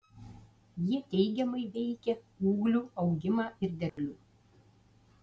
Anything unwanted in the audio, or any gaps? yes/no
yes